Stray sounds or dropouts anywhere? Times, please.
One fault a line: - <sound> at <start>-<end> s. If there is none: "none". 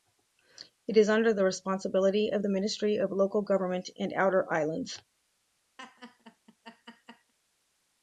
- laugh at 5.8-7.3 s